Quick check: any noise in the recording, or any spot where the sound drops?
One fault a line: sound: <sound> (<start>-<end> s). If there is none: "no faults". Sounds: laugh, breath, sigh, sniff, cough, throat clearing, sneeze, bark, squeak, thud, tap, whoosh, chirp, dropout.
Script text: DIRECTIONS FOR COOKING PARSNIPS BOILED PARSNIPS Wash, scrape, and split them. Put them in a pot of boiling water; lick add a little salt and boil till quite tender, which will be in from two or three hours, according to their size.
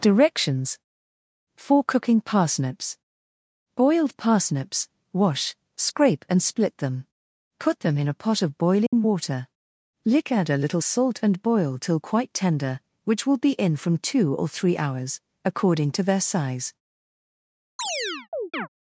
sound: dropout (8.9-8.9 s)
sound: chirp (17.8-18.7 s)